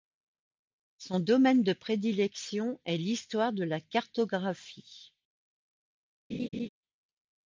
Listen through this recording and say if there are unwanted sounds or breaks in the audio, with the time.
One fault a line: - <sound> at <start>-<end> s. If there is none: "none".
- laugh at 6.3-6.7 s